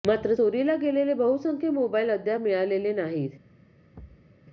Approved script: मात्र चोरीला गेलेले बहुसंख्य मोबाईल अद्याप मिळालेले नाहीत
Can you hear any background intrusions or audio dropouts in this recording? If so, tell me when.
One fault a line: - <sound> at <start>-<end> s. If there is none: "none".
- thud at 3.9-4.3 s